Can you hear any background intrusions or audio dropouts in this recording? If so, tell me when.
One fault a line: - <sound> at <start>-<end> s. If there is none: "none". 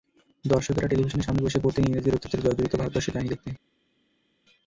none